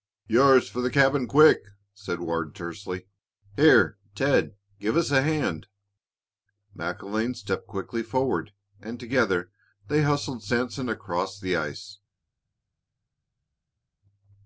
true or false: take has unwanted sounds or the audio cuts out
false